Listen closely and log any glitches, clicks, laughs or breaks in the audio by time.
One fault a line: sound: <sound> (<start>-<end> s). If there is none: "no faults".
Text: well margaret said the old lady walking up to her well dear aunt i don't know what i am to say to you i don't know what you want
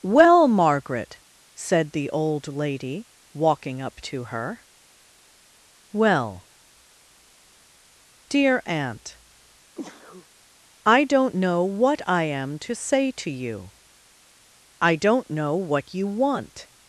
sound: sneeze (9.8-10.3 s)